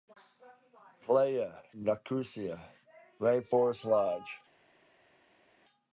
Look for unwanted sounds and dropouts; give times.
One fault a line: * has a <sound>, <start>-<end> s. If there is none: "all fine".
all fine